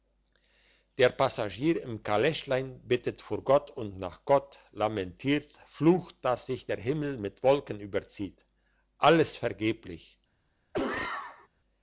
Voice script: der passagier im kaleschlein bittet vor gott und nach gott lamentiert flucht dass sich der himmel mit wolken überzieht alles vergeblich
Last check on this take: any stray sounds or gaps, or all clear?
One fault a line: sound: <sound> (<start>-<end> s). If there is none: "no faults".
sound: cough (10.7-11.5 s)